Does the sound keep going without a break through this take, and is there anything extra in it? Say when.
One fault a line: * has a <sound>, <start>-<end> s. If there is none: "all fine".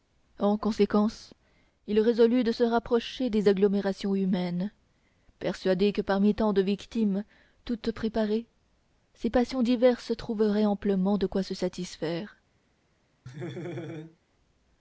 * has a laugh, 13.3-14.2 s